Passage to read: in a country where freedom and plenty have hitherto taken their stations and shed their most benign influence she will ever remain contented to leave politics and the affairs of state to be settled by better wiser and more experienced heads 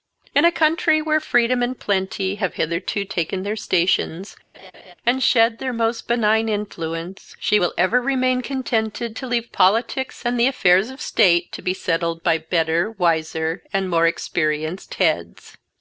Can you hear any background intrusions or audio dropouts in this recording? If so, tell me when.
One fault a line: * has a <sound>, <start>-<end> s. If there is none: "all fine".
* has a laugh, 4.5-4.9 s